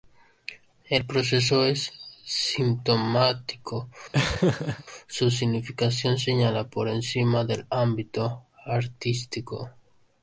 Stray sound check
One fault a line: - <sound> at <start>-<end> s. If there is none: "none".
- laugh at 4.1-4.8 s